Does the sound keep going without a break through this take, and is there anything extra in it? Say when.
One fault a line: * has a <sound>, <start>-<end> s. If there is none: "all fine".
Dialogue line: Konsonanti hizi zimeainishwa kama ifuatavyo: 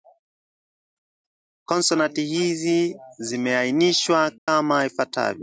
* has a dropout, 4.4-4.5 s